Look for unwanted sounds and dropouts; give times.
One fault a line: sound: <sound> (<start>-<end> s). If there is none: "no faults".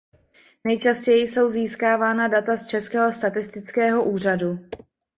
no faults